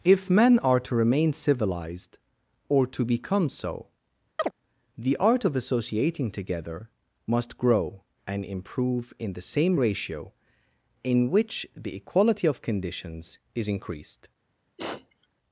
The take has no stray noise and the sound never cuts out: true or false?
false